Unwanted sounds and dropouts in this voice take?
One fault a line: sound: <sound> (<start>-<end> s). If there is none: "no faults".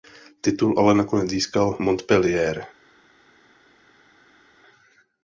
no faults